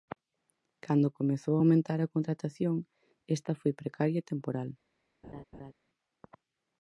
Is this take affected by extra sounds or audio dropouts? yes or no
yes